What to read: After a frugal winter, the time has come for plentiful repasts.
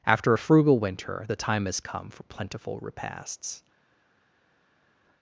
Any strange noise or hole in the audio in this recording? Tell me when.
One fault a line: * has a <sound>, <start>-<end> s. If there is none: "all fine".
all fine